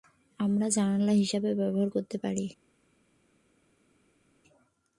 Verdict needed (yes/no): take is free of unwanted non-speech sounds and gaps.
yes